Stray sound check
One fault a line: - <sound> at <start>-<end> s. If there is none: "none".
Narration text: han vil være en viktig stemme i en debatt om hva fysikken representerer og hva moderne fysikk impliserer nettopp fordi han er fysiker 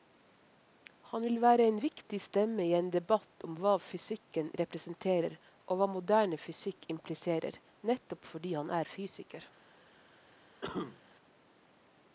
- cough at 10.6-11.0 s